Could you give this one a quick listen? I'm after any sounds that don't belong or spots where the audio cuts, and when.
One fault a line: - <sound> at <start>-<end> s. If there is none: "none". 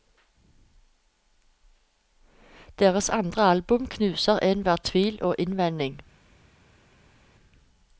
none